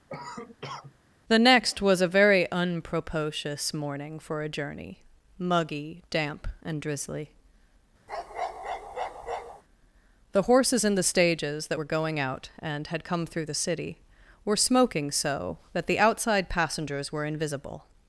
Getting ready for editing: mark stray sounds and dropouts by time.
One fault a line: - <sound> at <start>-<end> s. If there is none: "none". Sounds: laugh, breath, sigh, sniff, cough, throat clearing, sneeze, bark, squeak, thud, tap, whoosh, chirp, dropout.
- cough at 0.1-1.0 s
- bark at 8.1-9.6 s